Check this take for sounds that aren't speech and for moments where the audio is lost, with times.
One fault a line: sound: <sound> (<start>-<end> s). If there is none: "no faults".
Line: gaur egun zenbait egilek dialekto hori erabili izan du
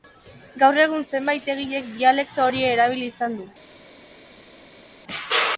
no faults